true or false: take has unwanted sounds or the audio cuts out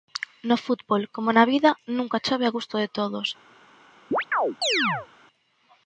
true